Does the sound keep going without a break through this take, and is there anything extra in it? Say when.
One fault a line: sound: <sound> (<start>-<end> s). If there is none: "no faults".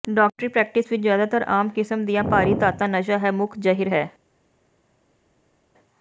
no faults